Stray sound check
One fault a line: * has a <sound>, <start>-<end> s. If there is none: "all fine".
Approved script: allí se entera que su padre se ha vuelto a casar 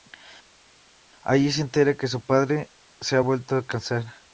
all fine